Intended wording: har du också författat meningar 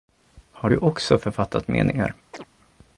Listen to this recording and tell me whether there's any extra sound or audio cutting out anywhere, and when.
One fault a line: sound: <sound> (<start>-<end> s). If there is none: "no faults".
sound: chirp (2.3-2.5 s)